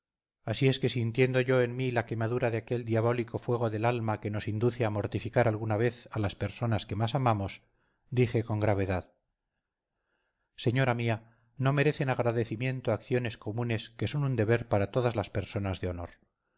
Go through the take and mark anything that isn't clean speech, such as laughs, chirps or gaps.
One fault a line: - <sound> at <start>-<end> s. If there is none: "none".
none